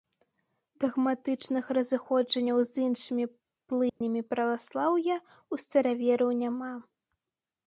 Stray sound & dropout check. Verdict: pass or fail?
fail